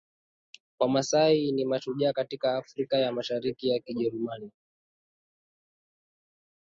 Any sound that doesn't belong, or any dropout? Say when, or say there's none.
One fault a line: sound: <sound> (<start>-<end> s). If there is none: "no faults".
no faults